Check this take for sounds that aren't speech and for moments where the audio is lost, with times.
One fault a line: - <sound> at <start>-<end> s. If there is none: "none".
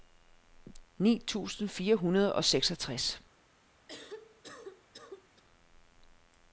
- cough at 3.9-5.4 s